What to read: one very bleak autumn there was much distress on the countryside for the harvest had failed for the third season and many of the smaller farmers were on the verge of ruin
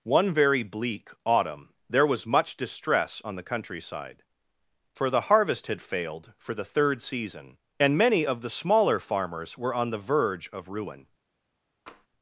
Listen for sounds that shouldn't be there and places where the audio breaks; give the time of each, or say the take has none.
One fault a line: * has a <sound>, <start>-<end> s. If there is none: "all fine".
* has a tap, 11.9-12.1 s